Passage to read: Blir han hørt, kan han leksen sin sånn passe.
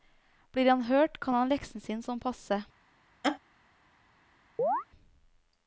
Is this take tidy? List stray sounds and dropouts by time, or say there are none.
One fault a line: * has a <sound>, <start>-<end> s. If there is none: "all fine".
* has a laugh, 3.2-3.4 s
* has a chirp, 4.6-4.8 s